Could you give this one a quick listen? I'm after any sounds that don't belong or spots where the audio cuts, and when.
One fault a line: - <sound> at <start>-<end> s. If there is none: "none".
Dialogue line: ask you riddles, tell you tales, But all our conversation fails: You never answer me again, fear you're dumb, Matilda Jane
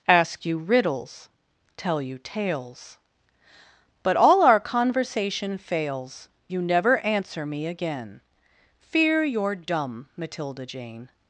none